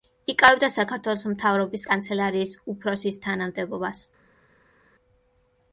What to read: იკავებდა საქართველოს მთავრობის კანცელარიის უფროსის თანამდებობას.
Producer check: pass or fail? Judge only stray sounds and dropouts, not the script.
pass